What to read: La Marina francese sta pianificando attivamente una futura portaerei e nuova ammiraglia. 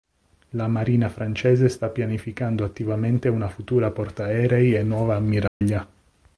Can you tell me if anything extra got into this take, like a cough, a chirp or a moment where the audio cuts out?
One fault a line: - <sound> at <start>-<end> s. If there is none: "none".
- dropout at 5.5-5.6 s